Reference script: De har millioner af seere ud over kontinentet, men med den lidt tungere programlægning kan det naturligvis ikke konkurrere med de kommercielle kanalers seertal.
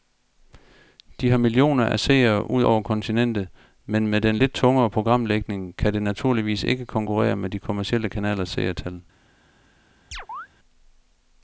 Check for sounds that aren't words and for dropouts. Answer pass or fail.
fail